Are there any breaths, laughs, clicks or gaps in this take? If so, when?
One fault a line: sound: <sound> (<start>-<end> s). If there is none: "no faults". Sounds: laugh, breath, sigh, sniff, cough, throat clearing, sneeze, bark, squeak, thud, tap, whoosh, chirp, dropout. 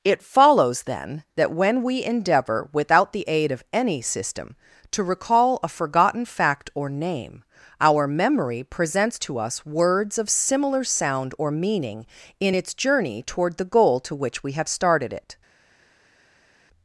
no faults